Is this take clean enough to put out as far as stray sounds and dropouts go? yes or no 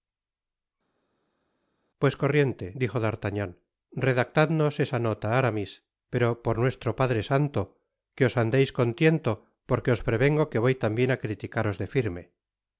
yes